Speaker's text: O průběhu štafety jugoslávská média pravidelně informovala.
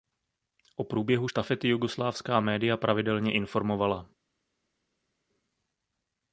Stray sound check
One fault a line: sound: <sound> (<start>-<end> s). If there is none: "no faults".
no faults